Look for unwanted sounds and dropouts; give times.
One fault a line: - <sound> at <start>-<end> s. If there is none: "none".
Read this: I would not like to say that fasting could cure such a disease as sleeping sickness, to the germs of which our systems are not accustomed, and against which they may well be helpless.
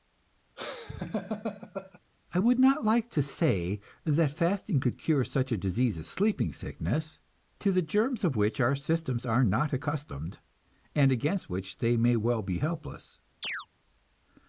- laugh at 0.6-2.0 s
- chirp at 13.4-13.7 s